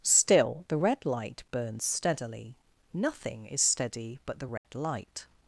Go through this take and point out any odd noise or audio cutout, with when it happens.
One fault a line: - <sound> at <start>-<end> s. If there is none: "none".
- dropout at 4.6-4.6 s